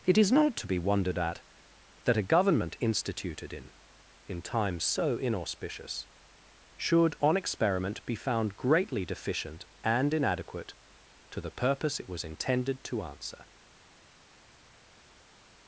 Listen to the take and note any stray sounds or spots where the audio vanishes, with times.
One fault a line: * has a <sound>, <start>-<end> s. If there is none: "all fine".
all fine